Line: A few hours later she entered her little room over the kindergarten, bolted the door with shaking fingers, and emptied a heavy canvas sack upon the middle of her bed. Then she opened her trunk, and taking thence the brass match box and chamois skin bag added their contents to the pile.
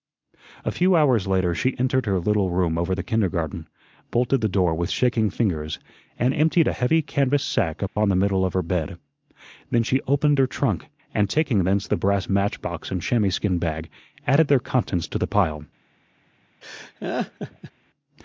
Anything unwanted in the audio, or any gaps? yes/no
yes